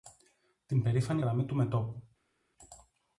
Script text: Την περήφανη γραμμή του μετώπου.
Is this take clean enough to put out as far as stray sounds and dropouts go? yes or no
yes